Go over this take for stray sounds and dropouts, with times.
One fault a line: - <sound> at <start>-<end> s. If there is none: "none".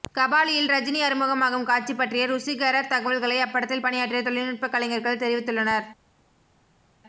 none